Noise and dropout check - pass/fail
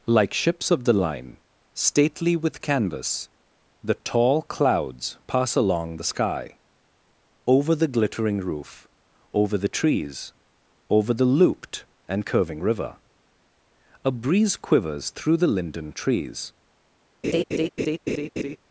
fail